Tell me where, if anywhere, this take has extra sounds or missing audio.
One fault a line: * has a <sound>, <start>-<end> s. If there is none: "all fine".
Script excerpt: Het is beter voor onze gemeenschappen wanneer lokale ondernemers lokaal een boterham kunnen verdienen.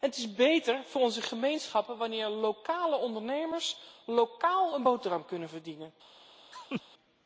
* has a laugh, 6.5-6.8 s